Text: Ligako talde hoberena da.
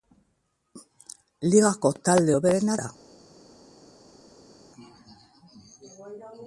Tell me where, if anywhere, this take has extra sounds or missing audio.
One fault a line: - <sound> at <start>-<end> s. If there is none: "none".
none